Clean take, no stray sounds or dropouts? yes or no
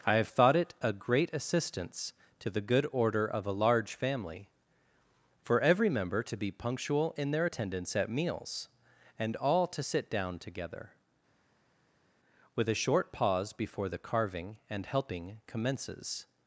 yes